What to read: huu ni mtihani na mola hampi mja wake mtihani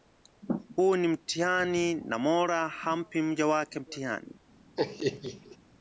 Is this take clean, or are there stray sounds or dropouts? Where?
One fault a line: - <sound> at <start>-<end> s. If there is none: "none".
- laugh at 4.8-5.6 s